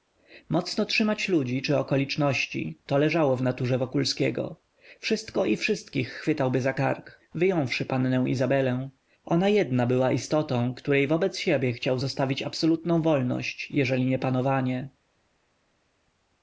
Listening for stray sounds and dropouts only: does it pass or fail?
pass